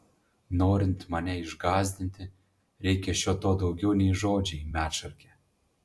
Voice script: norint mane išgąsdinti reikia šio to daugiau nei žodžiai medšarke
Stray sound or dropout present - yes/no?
no